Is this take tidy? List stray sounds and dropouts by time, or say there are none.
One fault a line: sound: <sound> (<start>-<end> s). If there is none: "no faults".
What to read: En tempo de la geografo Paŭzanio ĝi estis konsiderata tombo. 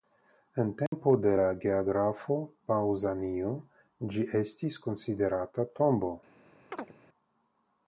sound: dropout (0.9-0.9 s)
sound: chirp (6.7-6.9 s)